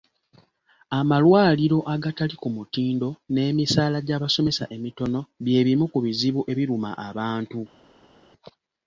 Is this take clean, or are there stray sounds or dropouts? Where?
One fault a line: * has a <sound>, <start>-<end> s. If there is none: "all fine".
all fine